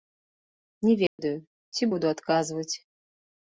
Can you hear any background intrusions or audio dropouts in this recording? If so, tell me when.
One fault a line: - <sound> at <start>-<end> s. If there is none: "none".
- dropout at 1.1-1.2 s